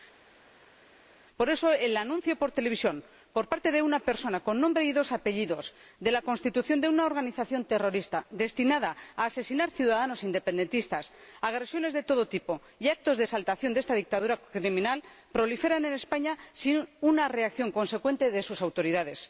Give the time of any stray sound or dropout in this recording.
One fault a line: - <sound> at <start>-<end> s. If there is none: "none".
none